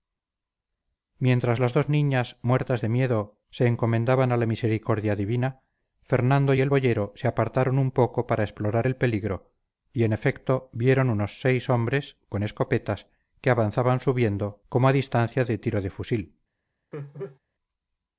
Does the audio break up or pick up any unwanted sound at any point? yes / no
yes